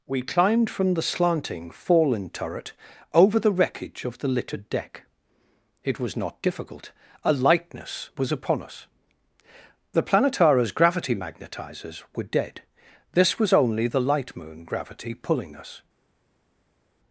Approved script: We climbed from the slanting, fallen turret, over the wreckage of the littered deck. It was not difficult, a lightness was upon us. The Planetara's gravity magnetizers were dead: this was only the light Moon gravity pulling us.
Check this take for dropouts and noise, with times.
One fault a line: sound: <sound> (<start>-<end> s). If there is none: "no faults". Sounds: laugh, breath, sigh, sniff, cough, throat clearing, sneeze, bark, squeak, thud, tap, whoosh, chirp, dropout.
no faults